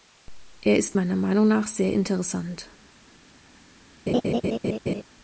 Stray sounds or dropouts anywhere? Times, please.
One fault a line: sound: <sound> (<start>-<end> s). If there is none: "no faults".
sound: laugh (4.1-5.0 s)